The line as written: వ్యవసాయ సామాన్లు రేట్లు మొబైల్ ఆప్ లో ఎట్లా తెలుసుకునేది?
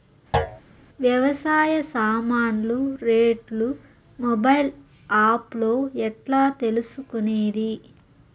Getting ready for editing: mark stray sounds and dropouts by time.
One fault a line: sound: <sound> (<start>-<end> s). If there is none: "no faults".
sound: thud (0.3-0.6 s)